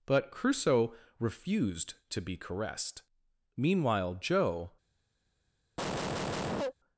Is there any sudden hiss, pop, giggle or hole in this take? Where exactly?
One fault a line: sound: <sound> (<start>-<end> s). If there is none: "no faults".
sound: cough (5.8-6.7 s)